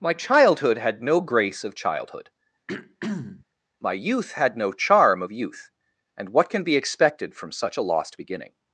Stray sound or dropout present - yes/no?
yes